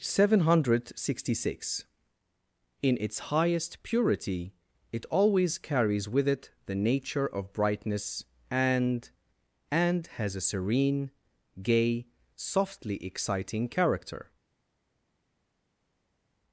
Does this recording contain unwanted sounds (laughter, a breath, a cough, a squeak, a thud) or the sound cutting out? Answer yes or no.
no